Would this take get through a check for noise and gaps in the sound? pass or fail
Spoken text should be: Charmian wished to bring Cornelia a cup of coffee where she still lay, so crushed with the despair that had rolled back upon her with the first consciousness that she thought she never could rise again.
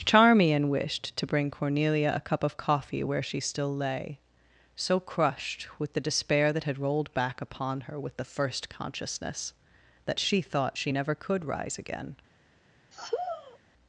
fail